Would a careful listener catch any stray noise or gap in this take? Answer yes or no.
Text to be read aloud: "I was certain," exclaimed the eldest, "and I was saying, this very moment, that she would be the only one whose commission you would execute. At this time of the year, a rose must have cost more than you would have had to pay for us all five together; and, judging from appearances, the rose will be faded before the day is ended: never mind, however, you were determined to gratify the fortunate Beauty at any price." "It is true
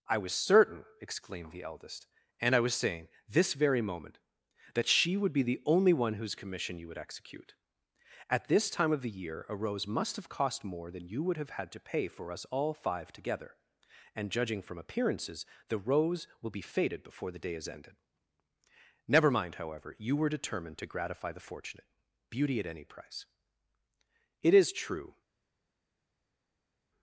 no